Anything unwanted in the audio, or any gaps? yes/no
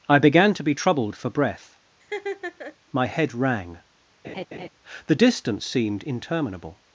yes